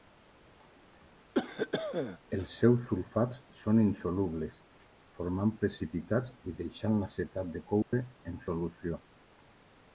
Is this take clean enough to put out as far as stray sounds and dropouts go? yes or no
no